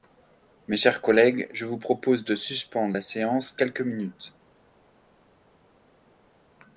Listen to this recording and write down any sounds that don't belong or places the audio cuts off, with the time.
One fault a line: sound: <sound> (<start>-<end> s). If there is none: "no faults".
no faults